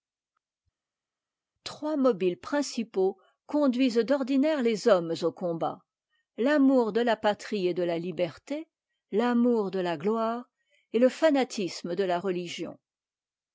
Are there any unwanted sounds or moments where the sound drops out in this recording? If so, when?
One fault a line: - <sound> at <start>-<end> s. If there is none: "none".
none